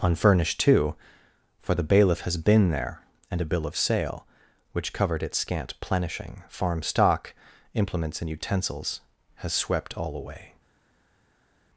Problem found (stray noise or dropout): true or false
false